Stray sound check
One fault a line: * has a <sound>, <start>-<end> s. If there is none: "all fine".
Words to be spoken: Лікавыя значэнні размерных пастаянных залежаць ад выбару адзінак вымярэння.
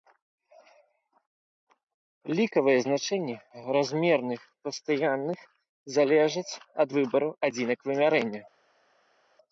all fine